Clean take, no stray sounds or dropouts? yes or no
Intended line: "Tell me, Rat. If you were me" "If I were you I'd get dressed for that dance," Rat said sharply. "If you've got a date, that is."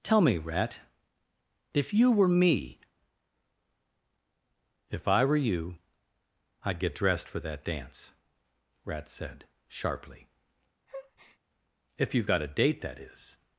no